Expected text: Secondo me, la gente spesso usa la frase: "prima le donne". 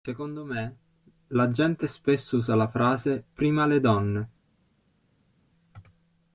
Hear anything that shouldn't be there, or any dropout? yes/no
no